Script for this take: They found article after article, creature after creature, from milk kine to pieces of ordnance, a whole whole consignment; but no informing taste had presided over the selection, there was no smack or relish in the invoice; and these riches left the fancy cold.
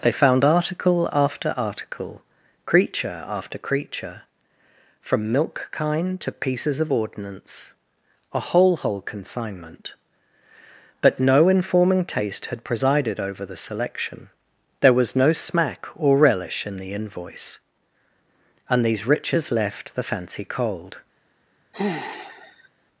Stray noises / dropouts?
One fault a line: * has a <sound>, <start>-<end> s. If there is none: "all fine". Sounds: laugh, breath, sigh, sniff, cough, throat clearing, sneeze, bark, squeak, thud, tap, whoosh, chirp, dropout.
* has a sigh, 21.7-22.7 s